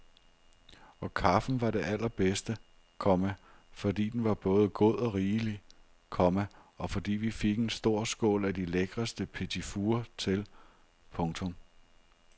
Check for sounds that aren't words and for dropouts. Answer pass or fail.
pass